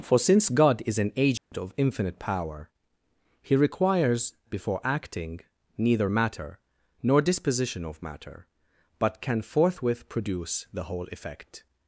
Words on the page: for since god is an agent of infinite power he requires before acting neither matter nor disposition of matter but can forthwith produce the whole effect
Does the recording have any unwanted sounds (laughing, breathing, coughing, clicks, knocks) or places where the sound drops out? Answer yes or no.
yes